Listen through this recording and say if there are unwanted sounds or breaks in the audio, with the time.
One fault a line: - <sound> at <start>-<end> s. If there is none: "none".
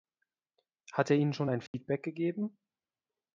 - dropout at 1.7-1.7 s